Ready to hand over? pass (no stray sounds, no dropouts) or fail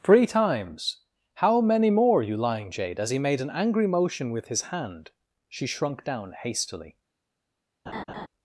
fail